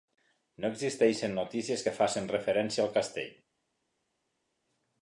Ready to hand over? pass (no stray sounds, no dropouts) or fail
pass